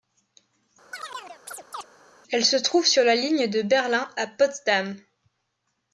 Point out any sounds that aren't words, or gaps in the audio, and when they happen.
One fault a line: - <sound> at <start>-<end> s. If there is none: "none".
- chirp at 0.9-1.9 s